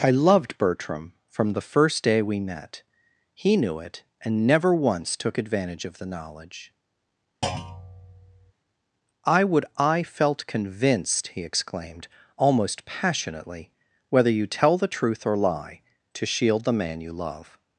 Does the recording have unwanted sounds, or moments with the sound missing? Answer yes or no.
yes